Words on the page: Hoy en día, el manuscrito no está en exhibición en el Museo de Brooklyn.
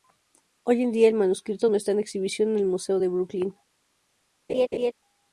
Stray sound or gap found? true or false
true